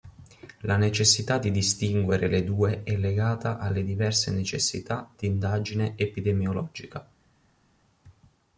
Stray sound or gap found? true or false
false